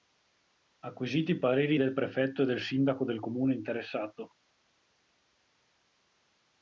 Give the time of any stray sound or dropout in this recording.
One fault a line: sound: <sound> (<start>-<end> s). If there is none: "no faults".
no faults